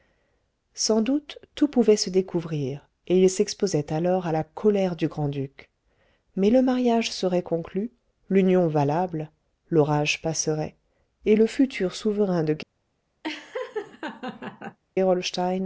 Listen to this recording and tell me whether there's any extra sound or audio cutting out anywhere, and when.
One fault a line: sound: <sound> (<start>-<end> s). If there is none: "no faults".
sound: laugh (13.2-14.8 s)